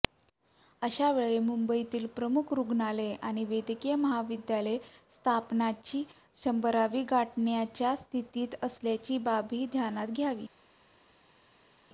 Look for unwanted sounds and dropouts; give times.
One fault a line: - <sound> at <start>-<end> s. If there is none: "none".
none